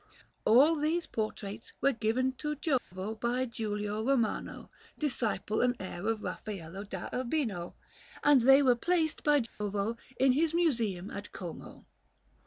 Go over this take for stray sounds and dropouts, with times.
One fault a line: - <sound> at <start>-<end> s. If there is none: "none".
- dropout at 2.8-2.9 s
- dropout at 9.5-9.6 s